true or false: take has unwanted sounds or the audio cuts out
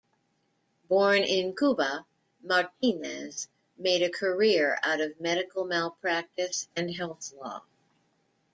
false